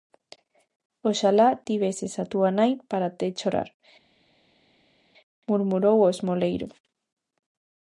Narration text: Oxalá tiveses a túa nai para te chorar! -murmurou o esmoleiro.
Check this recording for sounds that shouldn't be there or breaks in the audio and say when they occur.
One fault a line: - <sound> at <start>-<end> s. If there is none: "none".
none